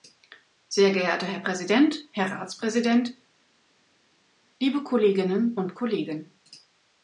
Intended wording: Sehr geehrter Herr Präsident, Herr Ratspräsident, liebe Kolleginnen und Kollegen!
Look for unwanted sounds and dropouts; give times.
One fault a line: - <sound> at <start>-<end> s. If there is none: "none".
none